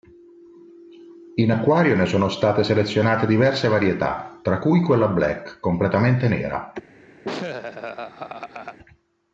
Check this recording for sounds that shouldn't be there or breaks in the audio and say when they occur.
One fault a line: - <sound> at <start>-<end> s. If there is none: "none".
- laugh at 7.2-8.8 s